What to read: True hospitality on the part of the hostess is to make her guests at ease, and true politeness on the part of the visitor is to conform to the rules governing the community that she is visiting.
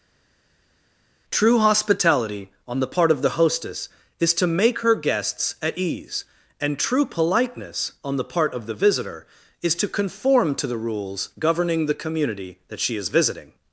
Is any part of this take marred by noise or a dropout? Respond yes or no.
no